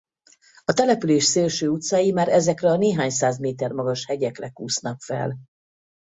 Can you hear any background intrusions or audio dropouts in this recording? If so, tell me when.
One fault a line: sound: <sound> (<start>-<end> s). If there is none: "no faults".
no faults